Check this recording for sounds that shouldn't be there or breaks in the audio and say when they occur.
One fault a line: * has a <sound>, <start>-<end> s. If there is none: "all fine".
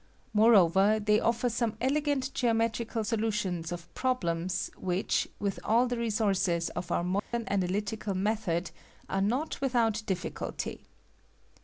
* has a dropout, 7.2-7.3 s